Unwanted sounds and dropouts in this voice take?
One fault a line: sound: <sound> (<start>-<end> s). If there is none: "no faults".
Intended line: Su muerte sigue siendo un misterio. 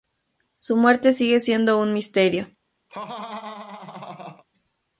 sound: laugh (2.9-4.4 s)